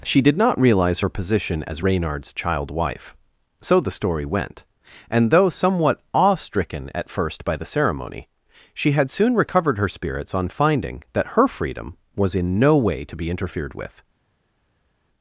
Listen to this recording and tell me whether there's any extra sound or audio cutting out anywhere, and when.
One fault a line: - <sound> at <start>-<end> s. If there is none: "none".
none